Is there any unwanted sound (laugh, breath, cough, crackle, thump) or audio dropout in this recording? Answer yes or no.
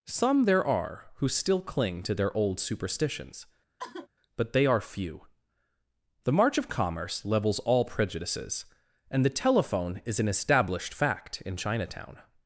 yes